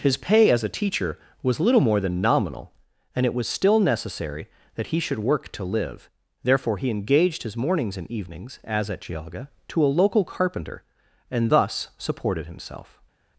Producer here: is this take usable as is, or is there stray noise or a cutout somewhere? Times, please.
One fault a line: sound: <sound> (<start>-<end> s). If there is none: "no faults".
no faults